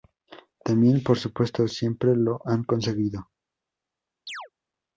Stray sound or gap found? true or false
true